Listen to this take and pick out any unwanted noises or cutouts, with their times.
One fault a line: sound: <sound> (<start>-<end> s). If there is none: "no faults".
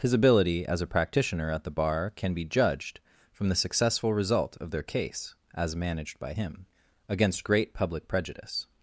no faults